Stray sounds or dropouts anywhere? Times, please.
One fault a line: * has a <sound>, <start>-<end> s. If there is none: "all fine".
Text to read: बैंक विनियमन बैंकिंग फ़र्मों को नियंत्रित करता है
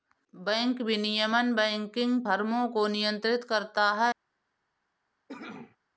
* has a cough, 5.3-5.8 s